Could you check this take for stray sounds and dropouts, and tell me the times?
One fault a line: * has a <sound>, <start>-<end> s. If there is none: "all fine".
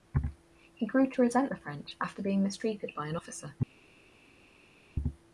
all fine